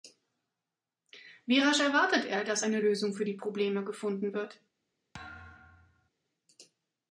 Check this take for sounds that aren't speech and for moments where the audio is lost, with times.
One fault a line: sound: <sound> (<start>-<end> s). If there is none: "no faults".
sound: thud (5.1-6.1 s)